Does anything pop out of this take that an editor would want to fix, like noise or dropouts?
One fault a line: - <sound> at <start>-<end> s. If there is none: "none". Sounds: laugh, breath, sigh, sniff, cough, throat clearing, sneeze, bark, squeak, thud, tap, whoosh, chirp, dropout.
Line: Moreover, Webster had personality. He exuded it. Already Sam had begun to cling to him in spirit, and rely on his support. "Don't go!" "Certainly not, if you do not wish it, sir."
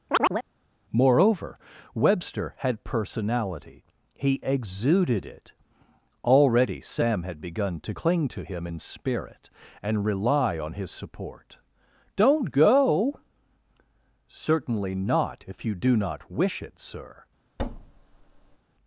- chirp at 0.1-0.5 s
- thud at 17.6-18.6 s